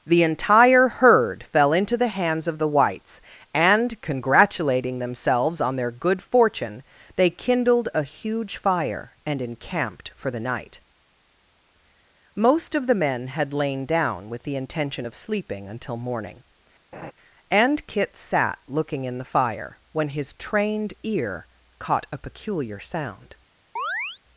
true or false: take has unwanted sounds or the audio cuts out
true